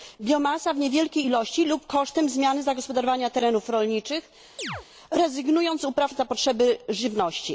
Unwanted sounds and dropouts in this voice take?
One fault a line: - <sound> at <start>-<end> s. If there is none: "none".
- chirp at 4.6-4.9 s